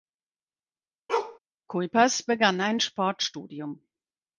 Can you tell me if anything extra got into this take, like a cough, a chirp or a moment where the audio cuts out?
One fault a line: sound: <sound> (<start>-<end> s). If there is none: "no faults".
sound: bark (1.1-1.4 s)